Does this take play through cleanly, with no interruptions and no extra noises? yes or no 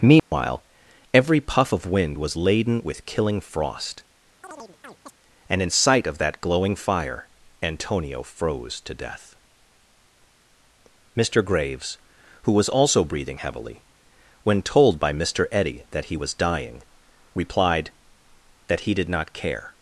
no